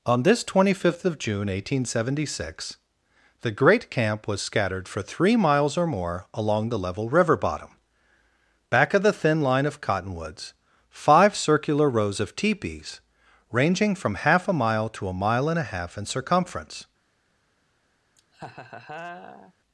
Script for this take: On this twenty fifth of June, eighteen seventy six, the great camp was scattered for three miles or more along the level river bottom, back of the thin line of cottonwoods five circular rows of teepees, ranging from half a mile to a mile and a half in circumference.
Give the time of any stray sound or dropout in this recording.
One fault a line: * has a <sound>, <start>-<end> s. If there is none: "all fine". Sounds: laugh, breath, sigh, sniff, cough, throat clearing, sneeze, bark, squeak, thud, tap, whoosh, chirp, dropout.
* has a laugh, 18.2-19.5 s